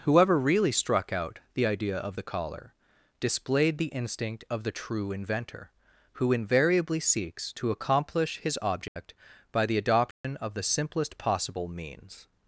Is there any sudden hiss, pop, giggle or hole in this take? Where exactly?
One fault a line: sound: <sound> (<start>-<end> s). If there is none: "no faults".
sound: dropout (8.9-9.0 s)
sound: dropout (10.1-10.2 s)